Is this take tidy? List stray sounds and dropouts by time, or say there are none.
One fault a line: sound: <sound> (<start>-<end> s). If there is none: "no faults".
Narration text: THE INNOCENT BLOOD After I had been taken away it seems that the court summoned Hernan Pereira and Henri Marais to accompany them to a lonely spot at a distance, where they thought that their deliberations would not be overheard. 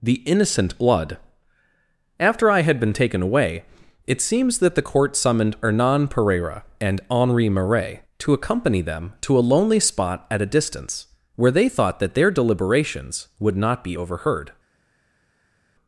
no faults